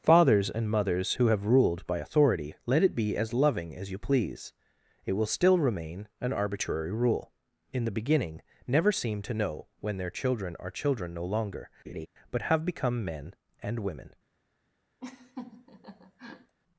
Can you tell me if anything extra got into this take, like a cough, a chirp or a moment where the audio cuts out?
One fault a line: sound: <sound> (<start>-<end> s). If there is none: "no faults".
sound: laugh (11.9-12.1 s)
sound: laugh (15.0-16.5 s)